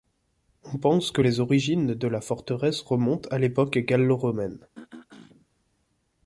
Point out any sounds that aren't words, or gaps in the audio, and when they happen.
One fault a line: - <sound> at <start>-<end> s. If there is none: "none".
- throat clearing at 4.7-5.5 s